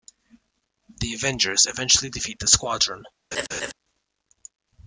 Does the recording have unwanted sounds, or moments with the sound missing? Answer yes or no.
yes